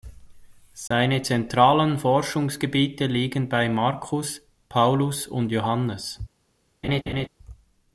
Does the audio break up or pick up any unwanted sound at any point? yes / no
yes